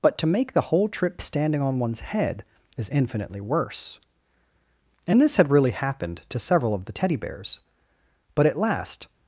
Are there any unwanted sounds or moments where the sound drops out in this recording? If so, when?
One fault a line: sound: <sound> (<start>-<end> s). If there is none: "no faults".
no faults